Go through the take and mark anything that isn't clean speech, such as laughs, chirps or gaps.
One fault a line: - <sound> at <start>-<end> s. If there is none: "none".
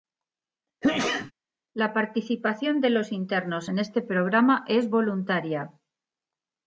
- sneeze at 0.8-1.3 s